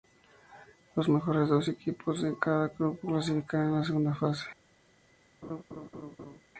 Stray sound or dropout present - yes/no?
yes